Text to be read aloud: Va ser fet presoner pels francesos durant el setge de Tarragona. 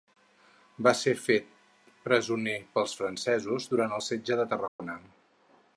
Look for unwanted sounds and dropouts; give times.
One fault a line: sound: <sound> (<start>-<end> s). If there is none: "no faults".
sound: dropout (4.7-4.8 s)